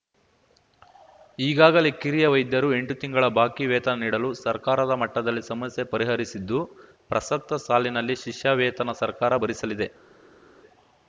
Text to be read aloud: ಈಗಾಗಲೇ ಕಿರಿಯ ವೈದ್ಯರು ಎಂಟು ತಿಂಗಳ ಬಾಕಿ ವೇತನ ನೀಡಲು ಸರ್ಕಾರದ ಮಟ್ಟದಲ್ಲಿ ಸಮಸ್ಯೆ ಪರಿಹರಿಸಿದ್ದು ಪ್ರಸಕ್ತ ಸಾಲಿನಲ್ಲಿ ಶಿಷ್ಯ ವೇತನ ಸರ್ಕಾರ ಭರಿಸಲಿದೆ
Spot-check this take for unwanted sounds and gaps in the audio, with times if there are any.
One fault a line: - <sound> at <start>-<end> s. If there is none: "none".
none